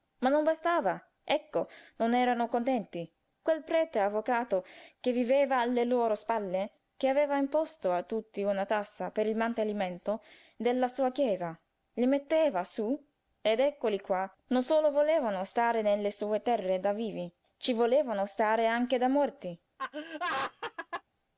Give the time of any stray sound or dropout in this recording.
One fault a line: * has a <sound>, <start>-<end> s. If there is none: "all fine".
* has a laugh, 19.8-21.0 s